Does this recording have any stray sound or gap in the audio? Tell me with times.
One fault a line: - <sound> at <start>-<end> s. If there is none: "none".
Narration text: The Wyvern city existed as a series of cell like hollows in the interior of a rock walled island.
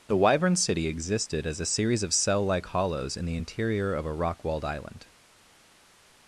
none